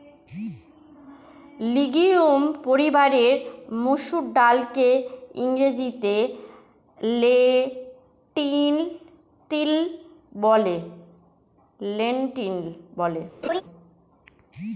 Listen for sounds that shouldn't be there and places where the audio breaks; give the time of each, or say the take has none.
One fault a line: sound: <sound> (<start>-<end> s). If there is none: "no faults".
sound: laugh (13.4-13.6 s)